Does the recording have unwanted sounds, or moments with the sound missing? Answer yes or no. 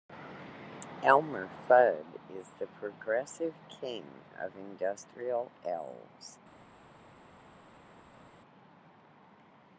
no